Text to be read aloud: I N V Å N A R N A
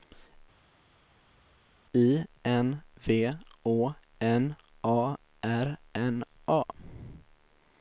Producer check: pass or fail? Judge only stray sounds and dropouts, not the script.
pass